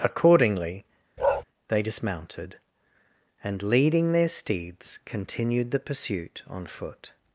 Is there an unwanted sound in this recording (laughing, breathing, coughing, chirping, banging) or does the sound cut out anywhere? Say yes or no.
yes